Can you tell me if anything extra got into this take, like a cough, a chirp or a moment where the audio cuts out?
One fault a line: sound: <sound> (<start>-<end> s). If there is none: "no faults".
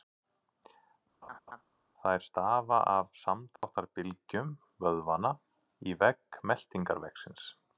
sound: laugh (1.2-1.6 s)
sound: dropout (3.6-3.6 s)